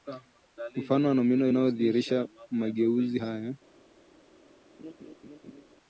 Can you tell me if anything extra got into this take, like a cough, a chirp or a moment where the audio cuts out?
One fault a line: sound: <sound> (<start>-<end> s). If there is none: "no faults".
sound: laugh (4.8-5.6 s)